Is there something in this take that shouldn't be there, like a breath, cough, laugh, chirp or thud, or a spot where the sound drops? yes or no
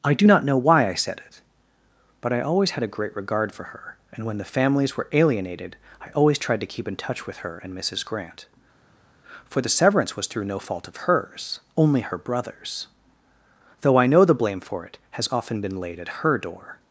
no